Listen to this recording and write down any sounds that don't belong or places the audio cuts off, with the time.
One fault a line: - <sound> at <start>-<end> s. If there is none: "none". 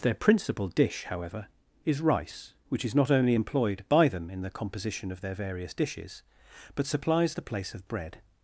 none